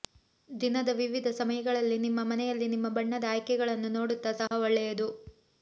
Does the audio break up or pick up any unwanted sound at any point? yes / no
yes